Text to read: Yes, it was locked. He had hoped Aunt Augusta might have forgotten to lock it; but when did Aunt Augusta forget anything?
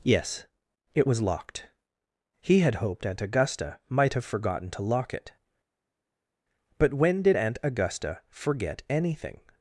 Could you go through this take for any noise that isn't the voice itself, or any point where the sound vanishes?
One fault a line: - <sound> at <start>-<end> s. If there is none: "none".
none